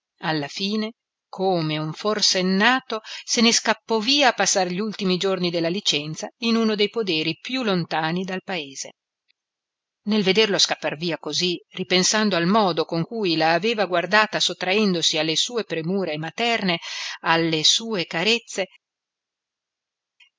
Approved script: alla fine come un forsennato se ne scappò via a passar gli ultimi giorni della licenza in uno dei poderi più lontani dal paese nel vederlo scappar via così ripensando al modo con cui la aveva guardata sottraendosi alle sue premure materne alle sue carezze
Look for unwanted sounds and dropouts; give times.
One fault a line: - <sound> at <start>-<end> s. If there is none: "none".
none